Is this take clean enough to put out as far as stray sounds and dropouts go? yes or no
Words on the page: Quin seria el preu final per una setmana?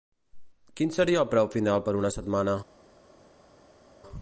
yes